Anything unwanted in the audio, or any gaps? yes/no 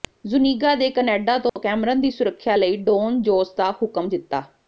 yes